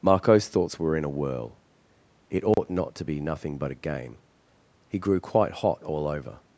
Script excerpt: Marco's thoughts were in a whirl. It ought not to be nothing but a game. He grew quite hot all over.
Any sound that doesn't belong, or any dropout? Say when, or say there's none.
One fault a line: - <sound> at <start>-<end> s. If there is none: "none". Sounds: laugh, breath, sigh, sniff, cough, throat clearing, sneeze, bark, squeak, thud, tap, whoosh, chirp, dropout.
- dropout at 2.5-2.6 s